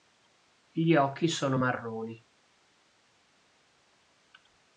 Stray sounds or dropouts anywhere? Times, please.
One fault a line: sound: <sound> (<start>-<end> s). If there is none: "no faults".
no faults